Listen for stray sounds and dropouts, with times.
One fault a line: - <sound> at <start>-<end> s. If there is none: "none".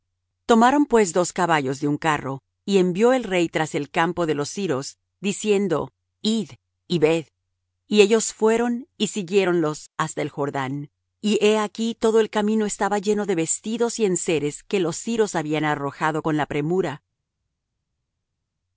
none